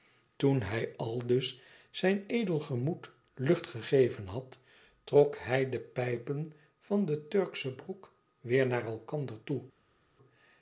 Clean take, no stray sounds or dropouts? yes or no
yes